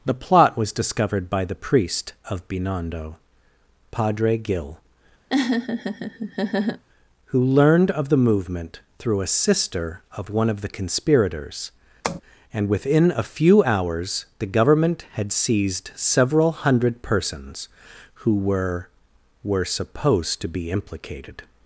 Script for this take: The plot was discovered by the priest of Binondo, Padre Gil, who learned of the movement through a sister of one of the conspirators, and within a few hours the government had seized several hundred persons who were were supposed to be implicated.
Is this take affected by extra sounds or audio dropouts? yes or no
yes